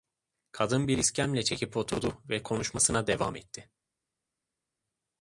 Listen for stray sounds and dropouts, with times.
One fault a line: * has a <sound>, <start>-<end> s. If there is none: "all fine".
all fine